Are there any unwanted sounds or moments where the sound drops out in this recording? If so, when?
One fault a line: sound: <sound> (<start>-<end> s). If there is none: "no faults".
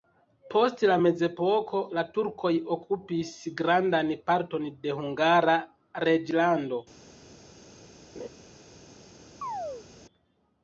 sound: laugh (8.2-8.3 s)
sound: chirp (9.4-9.9 s)